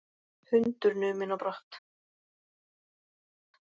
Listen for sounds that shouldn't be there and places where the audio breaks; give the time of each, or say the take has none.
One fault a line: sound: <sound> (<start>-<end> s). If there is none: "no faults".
no faults